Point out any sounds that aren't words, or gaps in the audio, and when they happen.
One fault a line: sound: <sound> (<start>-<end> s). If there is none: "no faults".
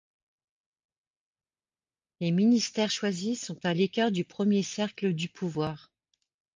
no faults